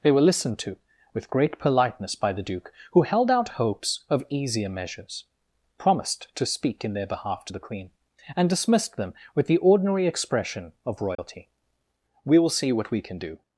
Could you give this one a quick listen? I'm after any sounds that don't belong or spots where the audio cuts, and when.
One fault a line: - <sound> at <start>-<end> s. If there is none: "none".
- dropout at 11.1-11.2 s